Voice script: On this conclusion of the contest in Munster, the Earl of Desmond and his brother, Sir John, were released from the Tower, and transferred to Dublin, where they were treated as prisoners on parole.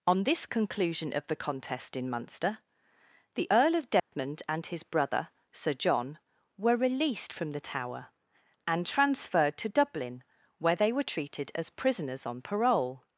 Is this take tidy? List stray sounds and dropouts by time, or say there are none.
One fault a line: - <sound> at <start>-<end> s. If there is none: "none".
- dropout at 4.0-4.1 s